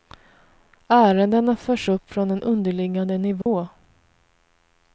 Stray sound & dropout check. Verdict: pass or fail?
fail